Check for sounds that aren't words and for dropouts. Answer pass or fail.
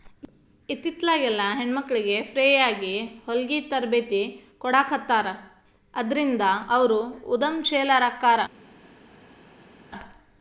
pass